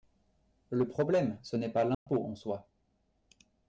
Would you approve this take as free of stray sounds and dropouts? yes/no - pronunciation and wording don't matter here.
no